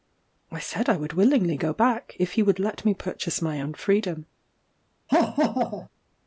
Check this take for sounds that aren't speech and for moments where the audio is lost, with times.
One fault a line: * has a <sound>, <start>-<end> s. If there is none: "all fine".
* has a laugh, 5.1-5.9 s